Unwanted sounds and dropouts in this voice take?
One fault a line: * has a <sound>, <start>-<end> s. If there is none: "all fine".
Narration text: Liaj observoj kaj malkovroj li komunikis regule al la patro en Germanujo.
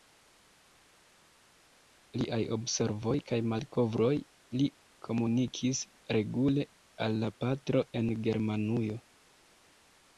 all fine